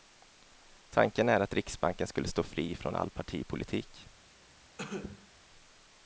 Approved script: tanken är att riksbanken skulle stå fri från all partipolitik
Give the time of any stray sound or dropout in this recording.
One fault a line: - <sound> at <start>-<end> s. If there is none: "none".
- cough at 4.8-5.3 s